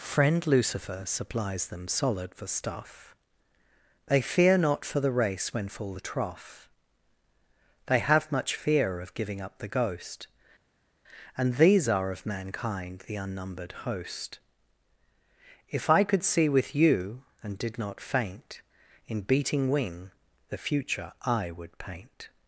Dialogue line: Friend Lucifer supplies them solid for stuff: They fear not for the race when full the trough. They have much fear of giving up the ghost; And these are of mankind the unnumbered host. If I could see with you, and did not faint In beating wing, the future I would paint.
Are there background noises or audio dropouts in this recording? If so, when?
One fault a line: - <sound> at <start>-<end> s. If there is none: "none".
none